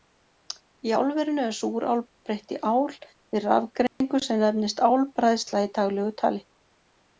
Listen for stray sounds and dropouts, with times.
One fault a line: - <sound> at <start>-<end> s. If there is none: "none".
- dropout at 3.9-4.0 s